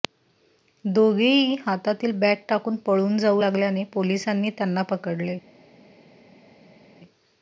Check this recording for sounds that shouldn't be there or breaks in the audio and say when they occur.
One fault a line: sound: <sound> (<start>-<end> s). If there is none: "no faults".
no faults